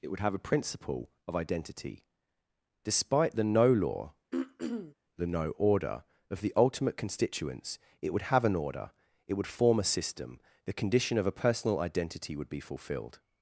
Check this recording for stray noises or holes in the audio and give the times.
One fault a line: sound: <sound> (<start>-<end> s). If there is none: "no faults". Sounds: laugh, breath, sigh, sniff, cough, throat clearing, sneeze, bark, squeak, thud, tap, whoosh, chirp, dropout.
sound: throat clearing (4.3-4.9 s)